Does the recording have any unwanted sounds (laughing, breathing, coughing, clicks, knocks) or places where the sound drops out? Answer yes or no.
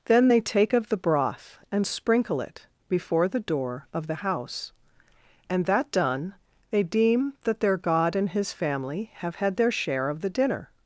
no